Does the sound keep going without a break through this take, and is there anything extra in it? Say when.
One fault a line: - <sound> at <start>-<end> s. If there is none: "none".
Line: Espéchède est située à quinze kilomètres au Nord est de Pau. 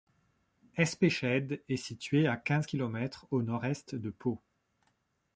none